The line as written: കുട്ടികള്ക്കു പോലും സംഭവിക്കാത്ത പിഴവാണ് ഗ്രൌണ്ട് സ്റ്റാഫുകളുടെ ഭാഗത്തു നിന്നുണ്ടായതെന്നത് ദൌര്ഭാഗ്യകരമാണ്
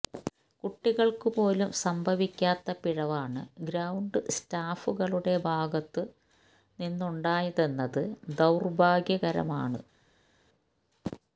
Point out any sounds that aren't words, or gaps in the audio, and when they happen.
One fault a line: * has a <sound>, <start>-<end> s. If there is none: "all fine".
all fine